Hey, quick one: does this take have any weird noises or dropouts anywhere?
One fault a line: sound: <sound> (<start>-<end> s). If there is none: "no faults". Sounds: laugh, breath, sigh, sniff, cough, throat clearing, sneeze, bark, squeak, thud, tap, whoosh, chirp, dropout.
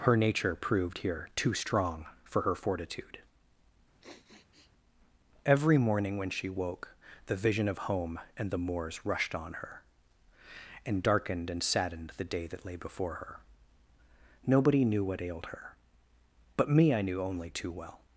sound: sniff (4.0-4.7 s)